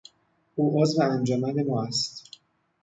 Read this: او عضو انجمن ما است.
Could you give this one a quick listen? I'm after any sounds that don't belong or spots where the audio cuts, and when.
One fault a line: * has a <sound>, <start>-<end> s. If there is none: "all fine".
all fine